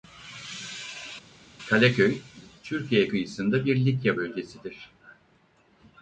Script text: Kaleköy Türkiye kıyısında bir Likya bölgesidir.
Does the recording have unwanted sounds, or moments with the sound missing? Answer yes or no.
no